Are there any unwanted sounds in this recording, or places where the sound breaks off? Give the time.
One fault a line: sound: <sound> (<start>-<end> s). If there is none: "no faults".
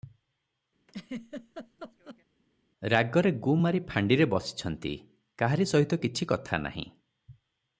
sound: laugh (0.9-2.2 s)